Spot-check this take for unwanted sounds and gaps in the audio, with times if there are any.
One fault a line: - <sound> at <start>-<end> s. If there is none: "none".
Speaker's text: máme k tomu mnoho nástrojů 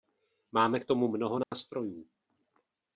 - dropout at 1.4-1.5 s